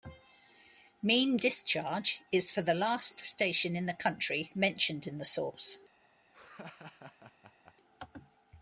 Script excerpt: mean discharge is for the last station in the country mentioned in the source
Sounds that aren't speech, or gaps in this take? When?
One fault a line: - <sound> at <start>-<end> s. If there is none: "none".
- laugh at 6.3-7.7 s